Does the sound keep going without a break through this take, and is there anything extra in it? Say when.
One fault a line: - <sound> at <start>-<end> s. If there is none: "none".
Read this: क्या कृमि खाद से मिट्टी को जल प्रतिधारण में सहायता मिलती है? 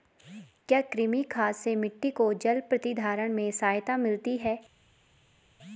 none